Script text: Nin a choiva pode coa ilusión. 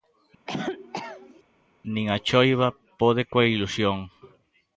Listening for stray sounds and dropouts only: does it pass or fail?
fail